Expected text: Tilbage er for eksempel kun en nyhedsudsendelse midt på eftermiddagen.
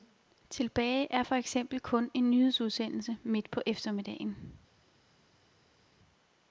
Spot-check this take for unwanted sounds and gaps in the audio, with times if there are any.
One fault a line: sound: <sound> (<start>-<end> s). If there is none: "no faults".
no faults